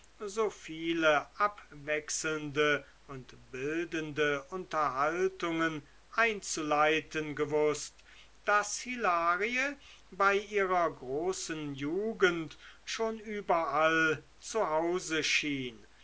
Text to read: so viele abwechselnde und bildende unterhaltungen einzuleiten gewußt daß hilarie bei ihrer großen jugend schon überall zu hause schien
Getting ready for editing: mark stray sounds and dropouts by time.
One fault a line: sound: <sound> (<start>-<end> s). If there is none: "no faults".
no faults